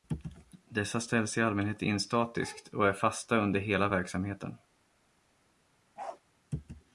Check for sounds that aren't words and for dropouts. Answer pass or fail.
fail